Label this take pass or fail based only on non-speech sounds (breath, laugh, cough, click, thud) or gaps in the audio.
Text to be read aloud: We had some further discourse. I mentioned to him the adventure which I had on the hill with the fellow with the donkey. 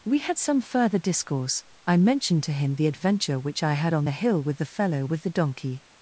pass